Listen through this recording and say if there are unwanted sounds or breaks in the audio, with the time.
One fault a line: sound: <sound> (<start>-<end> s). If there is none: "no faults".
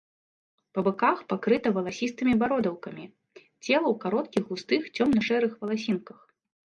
no faults